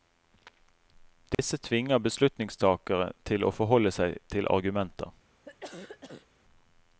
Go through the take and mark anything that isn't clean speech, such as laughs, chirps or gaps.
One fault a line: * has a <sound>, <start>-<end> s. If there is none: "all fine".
* has a dropout, 1.3-1.4 s
* has a cough, 5.5-6.3 s